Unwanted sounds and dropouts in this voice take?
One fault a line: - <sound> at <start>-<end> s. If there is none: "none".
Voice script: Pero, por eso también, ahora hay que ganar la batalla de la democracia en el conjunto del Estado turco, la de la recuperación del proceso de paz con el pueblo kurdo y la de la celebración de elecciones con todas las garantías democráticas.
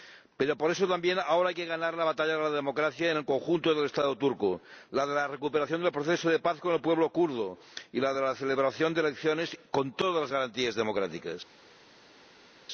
none